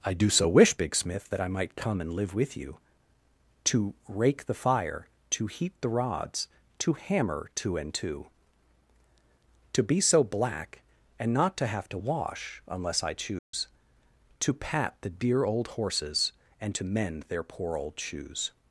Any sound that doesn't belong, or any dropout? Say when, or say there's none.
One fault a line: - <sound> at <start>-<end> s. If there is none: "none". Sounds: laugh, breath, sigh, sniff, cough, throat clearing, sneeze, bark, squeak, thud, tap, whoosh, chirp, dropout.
- dropout at 13.4-13.5 s